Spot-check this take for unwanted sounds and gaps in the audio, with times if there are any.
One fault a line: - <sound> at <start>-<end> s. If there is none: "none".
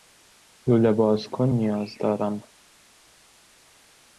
none